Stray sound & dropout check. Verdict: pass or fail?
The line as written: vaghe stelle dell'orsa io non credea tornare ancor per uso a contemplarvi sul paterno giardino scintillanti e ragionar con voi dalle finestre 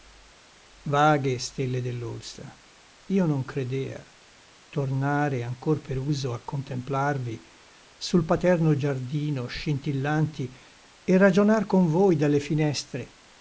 pass